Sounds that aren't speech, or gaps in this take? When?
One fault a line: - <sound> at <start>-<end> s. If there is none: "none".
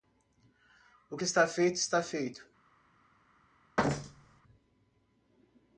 - thud at 3.8-4.4 s